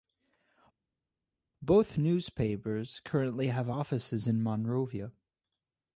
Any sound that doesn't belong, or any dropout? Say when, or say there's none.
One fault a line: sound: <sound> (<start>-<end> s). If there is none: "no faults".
no faults